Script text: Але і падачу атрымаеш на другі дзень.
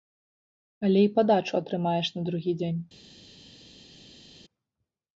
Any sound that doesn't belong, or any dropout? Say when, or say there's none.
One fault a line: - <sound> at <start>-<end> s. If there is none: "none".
none